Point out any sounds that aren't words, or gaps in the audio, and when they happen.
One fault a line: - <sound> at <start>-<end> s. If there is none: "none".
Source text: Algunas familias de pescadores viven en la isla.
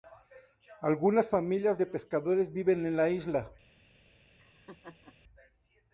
- laugh at 4.4-5.2 s